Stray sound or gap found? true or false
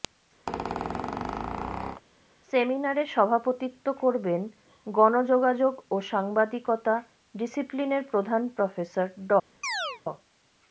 true